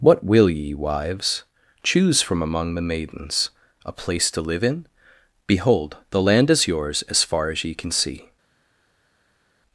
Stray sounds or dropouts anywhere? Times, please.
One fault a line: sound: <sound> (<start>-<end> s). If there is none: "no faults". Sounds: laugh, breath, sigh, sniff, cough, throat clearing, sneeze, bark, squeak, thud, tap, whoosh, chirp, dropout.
no faults